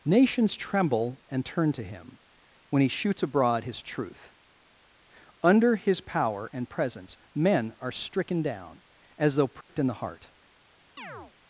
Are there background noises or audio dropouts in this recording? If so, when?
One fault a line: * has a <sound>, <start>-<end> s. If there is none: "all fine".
* has a dropout, 9.6-9.7 s
* has a chirp, 11.0-11.3 s